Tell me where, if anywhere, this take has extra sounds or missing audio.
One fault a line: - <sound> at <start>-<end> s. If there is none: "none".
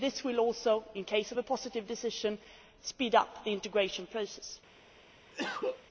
- cough at 5.3-5.9 s